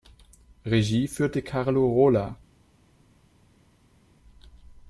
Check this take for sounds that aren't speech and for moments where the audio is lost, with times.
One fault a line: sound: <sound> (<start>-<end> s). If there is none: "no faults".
no faults